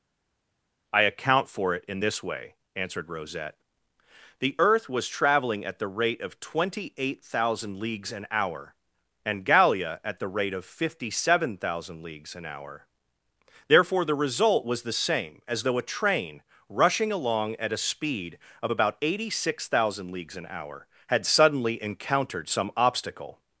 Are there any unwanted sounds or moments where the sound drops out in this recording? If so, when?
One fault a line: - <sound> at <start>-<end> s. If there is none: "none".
none